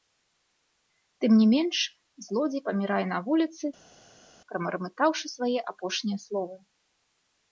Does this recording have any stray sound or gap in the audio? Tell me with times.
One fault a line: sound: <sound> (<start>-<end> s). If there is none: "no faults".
no faults